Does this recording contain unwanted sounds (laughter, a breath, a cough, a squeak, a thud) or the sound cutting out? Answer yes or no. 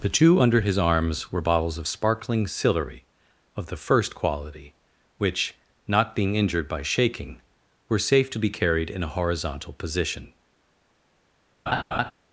yes